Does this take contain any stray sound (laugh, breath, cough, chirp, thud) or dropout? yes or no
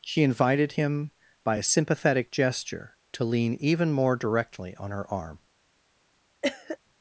yes